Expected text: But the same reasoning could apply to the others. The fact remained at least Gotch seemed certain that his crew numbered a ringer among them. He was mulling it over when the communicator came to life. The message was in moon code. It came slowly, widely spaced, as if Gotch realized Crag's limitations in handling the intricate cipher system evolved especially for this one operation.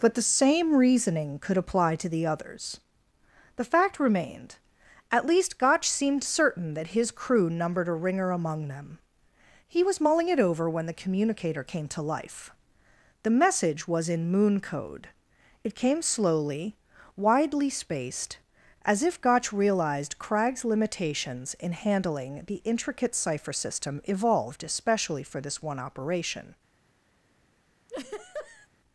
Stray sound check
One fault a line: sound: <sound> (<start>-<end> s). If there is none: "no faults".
sound: laugh (27.9-28.7 s)